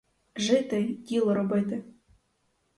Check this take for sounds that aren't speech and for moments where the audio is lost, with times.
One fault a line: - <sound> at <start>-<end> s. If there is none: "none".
none